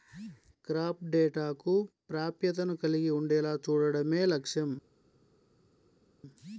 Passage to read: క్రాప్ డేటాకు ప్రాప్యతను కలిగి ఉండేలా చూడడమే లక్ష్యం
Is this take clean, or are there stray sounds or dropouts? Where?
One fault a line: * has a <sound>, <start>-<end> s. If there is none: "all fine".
all fine